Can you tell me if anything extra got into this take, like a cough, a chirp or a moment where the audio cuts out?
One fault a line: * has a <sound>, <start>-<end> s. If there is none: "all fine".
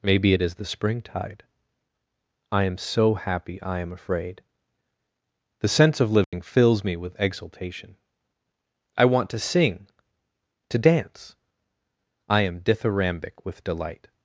* has a dropout, 6.2-6.3 s